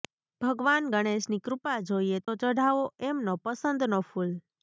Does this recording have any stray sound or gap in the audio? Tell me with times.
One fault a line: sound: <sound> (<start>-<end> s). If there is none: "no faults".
sound: dropout (2.2-2.3 s)